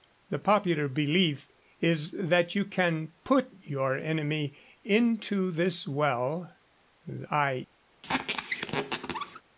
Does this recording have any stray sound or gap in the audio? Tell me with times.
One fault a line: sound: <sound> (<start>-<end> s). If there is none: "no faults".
sound: squeak (8.0-9.4 s)